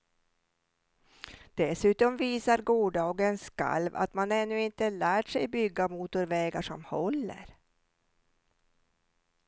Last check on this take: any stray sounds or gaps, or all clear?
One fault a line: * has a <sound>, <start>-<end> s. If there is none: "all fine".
all fine